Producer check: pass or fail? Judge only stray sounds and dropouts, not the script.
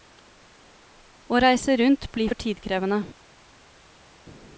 pass